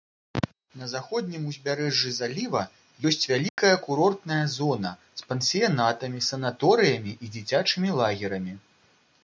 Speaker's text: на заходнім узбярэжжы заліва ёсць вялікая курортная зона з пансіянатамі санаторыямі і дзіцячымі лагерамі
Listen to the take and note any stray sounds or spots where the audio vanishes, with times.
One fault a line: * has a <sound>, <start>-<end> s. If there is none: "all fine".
* has a dropout, 3.5-3.6 s